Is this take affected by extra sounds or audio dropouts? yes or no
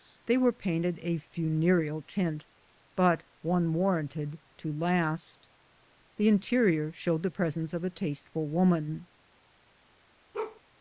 yes